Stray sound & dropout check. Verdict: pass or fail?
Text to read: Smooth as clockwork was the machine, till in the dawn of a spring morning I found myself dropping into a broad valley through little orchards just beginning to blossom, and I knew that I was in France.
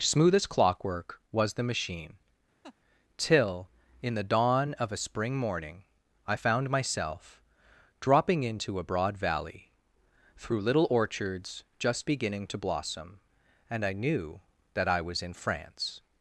fail